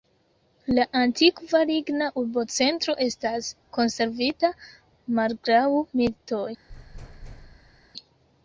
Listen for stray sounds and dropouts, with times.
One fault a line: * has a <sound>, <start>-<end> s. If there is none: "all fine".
* has a thud, 6.7-7.9 s